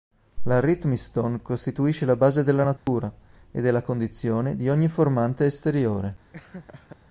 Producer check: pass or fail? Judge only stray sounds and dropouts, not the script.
fail